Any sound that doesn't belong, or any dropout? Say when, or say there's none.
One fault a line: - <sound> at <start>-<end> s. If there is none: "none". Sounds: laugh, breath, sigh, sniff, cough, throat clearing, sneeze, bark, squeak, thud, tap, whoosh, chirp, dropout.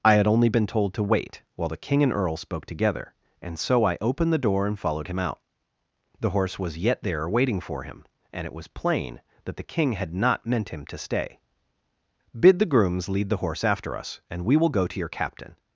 none